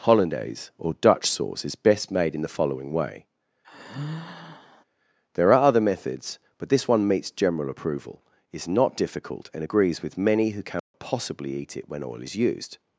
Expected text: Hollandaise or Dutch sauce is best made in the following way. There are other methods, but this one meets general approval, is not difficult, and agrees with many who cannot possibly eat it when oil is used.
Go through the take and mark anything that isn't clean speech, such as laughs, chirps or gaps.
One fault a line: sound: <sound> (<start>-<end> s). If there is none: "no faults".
sound: sigh (3.6-4.8 s)
sound: dropout (10.8-10.9 s)